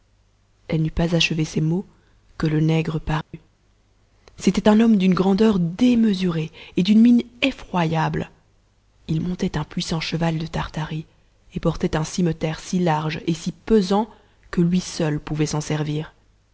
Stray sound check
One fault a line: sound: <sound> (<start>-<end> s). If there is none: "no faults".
sound: dropout (3.2-3.3 s)